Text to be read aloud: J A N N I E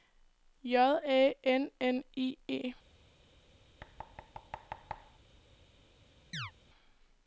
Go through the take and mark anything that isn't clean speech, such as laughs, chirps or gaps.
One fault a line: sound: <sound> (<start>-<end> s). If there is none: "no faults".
sound: thud (3.8-5.2 s)
sound: chirp (6.3-6.5 s)